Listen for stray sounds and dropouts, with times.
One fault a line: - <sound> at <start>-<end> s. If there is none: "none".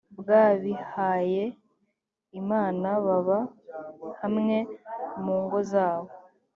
none